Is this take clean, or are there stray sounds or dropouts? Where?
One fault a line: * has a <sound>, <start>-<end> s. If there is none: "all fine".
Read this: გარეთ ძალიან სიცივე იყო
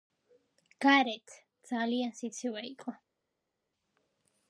all fine